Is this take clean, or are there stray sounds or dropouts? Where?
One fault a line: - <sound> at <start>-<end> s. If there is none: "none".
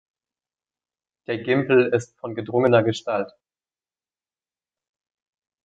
none